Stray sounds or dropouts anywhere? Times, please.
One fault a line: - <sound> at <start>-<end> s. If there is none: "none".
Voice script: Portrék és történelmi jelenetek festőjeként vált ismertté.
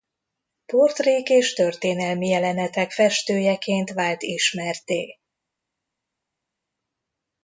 none